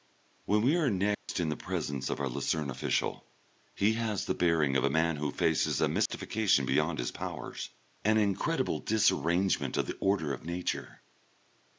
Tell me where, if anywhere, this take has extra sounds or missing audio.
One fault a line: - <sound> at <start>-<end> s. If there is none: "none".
- dropout at 1.1-1.3 s
- dropout at 6.1-6.1 s